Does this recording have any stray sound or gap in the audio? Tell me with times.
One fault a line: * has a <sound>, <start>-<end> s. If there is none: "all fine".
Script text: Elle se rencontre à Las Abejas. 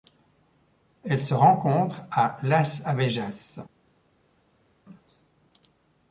all fine